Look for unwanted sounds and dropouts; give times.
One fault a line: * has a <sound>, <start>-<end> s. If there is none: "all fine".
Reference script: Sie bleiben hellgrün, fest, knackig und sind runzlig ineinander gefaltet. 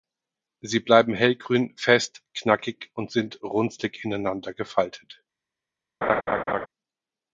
* has a laugh, 6.0-6.7 s